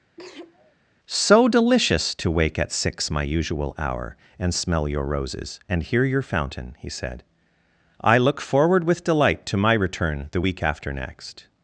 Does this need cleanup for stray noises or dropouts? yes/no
yes